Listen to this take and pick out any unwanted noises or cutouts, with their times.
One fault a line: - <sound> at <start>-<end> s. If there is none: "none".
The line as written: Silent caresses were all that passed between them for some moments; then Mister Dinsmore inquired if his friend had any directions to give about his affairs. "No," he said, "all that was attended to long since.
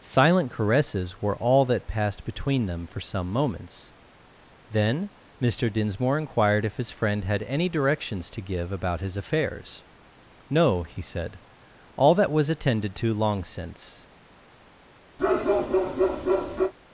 - bark at 15.2-16.7 s